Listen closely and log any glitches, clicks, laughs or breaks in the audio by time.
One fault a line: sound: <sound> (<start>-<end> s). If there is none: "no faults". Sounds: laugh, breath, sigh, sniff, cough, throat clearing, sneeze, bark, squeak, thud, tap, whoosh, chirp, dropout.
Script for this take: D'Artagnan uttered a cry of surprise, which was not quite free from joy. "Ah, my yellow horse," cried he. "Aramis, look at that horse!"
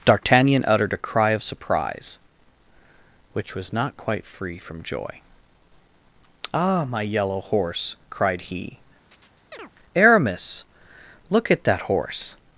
sound: chirp (9.1-9.7 s)